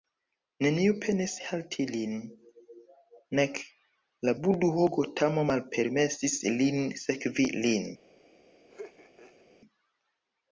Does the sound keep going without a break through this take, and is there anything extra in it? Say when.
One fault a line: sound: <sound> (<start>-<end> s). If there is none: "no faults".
sound: laugh (8.7-9.5 s)